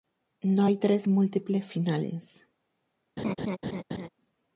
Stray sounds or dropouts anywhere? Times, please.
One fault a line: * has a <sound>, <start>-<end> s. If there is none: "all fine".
* has a laugh, 3.2-4.1 s